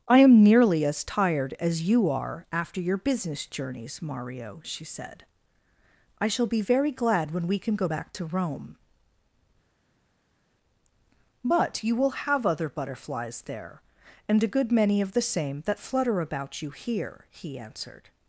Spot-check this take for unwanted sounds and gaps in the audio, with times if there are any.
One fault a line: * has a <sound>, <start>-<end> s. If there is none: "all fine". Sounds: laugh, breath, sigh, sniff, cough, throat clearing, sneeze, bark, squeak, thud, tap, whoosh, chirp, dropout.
all fine